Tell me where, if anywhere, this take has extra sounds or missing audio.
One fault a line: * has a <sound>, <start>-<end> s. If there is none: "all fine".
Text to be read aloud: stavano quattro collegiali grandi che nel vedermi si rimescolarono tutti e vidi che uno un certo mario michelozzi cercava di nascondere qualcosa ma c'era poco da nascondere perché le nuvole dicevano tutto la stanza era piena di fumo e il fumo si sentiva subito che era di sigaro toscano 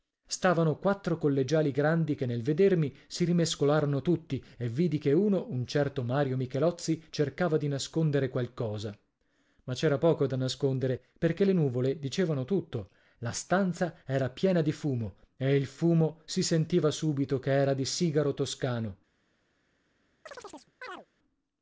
* has a chirp, 20.3-21.1 s